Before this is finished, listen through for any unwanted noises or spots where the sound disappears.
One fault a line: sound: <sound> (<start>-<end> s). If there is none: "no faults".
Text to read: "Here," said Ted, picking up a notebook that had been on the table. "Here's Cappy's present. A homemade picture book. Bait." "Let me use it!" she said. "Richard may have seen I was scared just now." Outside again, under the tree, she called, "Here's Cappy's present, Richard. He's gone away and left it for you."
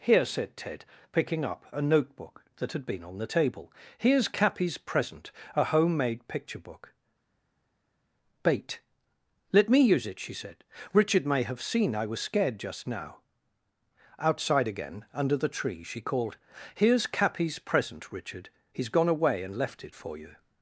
no faults